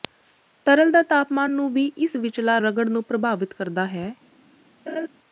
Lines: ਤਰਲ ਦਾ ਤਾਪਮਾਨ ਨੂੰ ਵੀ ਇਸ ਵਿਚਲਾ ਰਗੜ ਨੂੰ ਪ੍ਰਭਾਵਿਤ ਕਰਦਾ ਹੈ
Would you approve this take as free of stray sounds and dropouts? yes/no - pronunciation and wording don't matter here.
no